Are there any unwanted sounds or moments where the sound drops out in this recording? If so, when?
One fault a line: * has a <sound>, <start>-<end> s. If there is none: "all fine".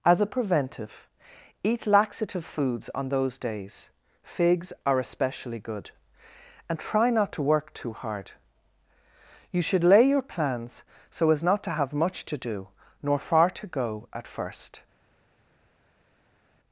all fine